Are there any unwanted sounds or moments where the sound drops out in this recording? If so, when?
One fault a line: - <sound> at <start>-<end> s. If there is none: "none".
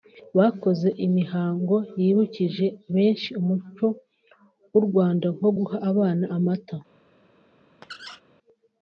- squeak at 7.8-8.2 s